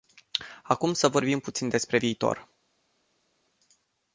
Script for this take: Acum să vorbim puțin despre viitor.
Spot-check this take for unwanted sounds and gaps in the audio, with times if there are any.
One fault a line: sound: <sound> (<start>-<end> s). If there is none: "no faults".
no faults